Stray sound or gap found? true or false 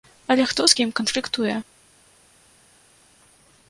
false